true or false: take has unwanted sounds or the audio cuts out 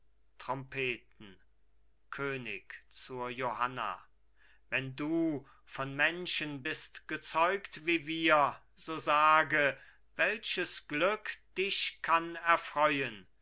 false